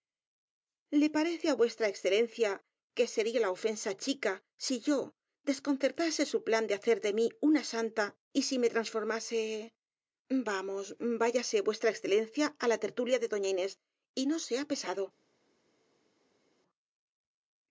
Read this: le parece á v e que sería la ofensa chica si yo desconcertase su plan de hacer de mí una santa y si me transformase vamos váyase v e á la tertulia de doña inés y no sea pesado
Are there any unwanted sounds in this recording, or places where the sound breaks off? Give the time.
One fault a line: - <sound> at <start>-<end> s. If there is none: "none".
none